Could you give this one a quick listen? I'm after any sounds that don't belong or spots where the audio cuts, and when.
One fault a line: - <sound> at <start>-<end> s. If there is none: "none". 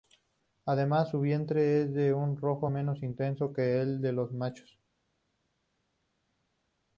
none